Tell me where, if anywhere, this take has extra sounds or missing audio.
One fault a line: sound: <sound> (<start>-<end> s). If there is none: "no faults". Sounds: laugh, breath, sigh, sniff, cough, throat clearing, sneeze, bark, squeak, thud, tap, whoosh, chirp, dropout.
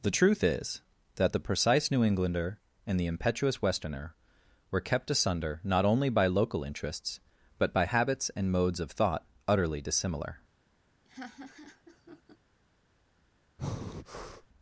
sound: laugh (11.0-12.4 s)
sound: breath (13.6-14.5 s)